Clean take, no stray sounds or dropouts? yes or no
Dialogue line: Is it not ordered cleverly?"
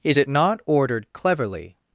yes